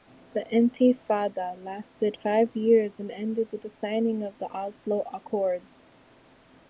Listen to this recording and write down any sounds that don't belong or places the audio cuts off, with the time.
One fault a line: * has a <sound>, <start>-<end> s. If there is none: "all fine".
all fine